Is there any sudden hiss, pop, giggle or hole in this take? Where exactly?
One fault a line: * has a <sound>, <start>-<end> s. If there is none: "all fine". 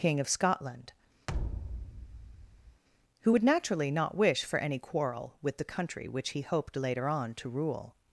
* has a thud, 1.3-2.8 s